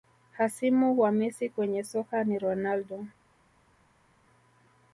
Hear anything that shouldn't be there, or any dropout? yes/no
no